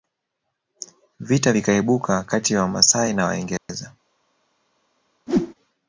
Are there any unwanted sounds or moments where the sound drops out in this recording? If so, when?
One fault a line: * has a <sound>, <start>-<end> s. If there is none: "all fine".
* has a dropout, 3.6-3.7 s
* has a whoosh, 5.3-5.5 s